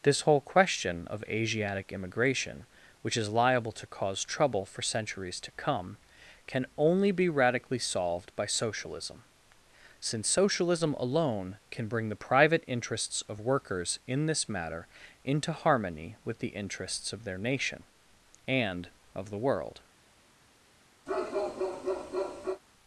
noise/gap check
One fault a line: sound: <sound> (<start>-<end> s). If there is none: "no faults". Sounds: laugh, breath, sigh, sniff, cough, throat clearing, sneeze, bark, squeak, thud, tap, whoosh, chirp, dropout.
sound: bark (21.1-22.6 s)